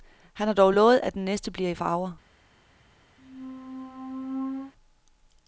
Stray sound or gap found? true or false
true